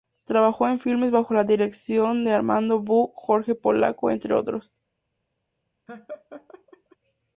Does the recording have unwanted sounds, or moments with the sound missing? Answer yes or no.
yes